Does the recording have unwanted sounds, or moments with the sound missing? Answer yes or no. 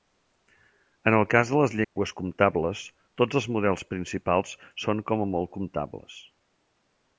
yes